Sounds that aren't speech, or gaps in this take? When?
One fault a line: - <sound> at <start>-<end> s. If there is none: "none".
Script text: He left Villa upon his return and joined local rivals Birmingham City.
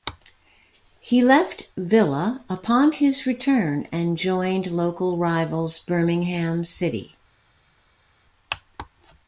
none